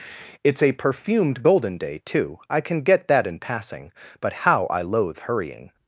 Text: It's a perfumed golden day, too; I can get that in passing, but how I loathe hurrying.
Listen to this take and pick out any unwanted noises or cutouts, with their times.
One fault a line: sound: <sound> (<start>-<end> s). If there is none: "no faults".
no faults